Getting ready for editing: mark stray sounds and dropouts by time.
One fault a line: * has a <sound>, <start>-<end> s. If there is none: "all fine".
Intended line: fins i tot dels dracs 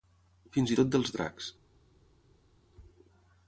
all fine